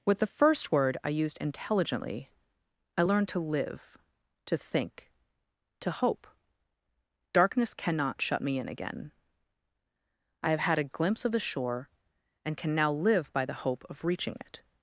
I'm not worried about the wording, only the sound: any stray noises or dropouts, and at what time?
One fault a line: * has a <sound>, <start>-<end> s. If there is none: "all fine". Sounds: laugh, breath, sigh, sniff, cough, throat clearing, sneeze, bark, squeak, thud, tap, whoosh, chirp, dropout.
all fine